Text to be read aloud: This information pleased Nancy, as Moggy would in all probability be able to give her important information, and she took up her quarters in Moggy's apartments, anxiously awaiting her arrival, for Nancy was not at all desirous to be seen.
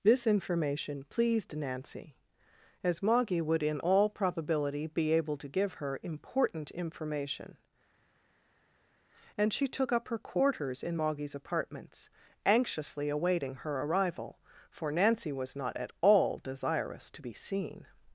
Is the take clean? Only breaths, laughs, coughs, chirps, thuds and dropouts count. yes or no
yes